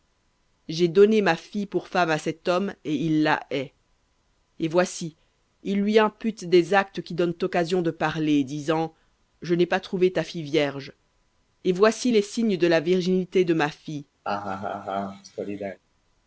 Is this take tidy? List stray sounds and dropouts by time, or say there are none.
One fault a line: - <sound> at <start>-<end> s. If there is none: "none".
- laugh at 14.2-15.8 s